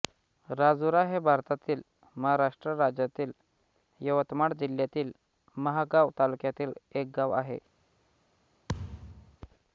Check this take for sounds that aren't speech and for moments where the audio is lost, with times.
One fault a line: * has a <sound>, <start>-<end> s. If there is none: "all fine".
* has a thud, 8.7-9.4 s